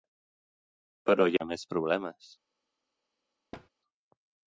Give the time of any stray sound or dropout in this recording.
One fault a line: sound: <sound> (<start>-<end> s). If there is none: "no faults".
sound: thud (3.5-3.7 s)